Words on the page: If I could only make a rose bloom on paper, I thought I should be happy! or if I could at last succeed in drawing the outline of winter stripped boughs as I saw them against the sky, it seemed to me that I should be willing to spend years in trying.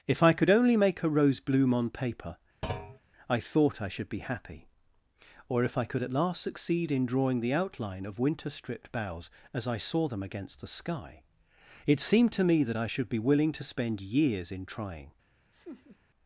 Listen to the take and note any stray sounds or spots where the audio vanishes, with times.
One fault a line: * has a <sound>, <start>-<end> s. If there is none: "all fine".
* has a thud, 2.6-3.0 s
* has a laugh, 15.5-16.0 s